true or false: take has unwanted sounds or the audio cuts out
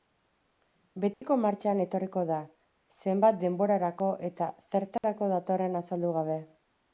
true